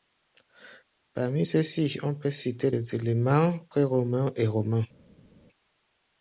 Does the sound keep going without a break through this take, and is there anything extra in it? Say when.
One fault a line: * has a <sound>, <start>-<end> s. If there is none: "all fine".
all fine